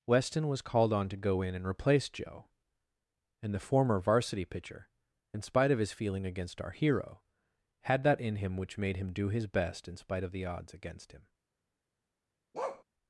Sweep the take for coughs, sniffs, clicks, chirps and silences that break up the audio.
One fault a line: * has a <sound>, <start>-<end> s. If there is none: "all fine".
* has a bark, 12.5-12.8 s